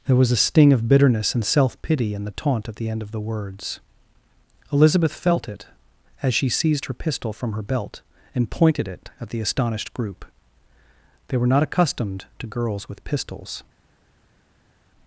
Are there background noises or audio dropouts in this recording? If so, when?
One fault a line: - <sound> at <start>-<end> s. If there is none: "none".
none